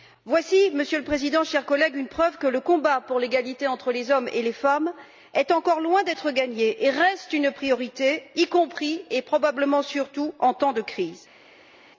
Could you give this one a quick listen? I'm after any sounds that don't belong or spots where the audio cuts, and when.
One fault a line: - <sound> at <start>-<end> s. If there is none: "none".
none